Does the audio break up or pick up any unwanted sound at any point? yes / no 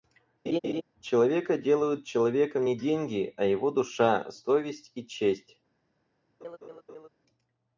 yes